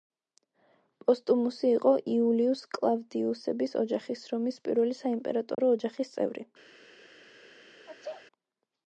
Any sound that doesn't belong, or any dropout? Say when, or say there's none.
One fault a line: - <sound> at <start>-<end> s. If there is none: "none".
- dropout at 5.5-5.6 s
- sneeze at 7.9-8.3 s